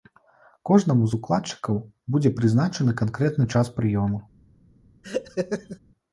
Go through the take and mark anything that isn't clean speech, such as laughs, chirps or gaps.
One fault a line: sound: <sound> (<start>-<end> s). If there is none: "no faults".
sound: laugh (5.0-5.8 s)